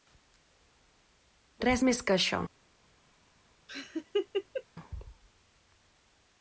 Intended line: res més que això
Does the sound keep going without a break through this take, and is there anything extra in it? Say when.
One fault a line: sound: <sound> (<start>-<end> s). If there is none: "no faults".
sound: laugh (3.7-4.6 s)